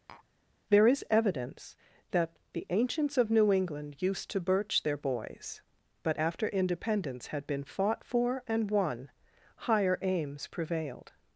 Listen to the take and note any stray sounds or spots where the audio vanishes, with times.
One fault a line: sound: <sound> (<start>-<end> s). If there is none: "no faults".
sound: tap (0.1-0.3 s)